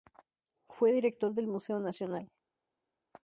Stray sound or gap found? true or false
false